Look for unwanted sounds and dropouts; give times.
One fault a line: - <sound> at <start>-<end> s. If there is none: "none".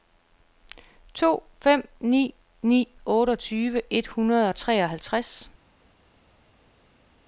none